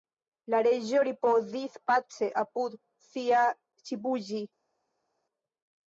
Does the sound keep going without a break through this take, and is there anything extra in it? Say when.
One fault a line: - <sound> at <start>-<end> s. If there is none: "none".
none